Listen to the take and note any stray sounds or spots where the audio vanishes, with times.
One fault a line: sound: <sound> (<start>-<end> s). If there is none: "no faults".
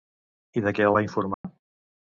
sound: dropout (1.3-1.4 s)